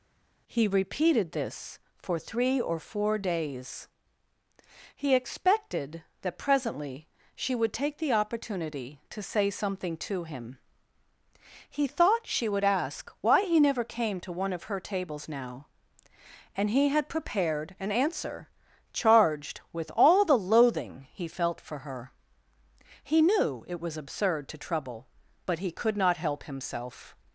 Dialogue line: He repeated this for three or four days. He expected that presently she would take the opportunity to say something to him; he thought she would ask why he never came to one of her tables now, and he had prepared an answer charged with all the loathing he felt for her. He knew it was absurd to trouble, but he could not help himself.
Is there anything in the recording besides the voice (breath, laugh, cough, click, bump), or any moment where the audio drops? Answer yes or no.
no